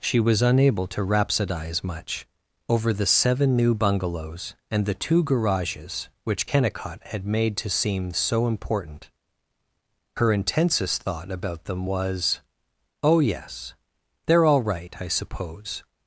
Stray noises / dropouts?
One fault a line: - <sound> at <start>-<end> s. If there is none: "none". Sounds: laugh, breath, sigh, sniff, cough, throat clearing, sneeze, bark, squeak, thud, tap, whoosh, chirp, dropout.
none